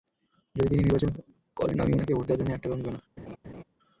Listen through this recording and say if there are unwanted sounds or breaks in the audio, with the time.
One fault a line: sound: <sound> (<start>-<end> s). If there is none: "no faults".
sound: laugh (3.2-3.6 s)